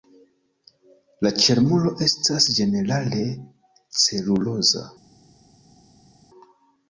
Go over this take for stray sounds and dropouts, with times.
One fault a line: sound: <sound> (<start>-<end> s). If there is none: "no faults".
no faults